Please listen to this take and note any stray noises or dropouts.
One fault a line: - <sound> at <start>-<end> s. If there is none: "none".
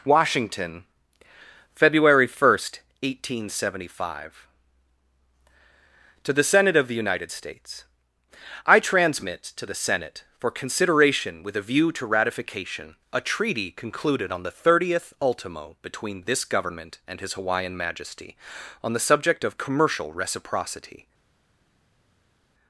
none